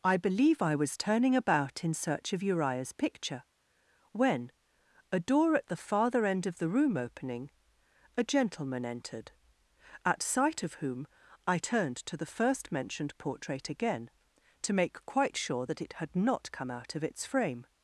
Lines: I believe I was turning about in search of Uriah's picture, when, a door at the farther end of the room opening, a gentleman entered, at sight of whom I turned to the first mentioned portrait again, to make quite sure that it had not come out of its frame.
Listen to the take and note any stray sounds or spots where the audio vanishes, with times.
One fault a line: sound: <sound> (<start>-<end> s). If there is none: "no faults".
no faults